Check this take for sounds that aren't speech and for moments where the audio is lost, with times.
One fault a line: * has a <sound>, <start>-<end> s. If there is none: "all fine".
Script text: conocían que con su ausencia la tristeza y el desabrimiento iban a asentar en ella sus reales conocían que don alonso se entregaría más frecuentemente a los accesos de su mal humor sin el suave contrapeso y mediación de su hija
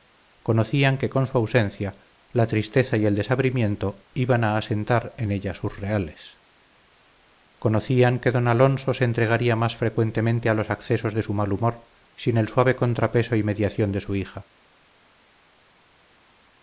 all fine